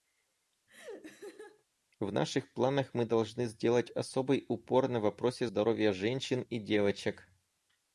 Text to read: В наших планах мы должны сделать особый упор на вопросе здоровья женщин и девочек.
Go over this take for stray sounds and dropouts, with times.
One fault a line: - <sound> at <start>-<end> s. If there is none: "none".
- laugh at 0.7-1.6 s